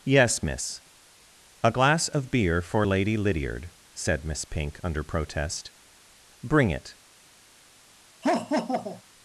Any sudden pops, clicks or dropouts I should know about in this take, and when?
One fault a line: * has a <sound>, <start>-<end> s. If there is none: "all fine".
* has a laugh, 8.2-9.0 s